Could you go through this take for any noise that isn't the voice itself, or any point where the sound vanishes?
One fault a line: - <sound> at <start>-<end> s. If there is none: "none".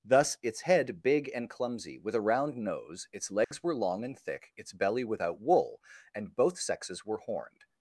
- dropout at 3.4-3.5 s